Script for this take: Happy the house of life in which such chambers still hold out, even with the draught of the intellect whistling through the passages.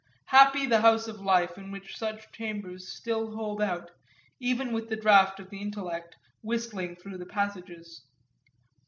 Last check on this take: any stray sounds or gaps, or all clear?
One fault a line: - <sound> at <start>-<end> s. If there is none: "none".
none